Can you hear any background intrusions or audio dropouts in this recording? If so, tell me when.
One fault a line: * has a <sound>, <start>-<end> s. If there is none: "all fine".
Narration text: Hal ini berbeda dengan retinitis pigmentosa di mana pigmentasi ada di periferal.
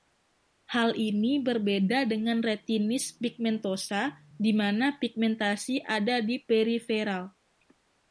all fine